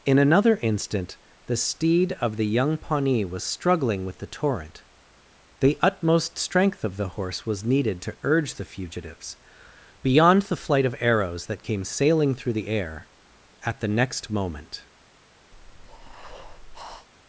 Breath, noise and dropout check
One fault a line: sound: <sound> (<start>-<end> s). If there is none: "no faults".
sound: breath (15.5-17.1 s)